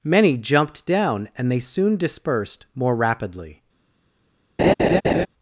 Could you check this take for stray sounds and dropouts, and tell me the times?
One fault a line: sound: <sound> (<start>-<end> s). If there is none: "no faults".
sound: laugh (4.6-5.3 s)